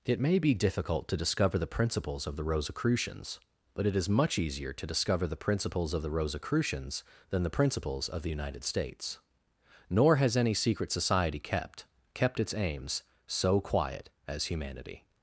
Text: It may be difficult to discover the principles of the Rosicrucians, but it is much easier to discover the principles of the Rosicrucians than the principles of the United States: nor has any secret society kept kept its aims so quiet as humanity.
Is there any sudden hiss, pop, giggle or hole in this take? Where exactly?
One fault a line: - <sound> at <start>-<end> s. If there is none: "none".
none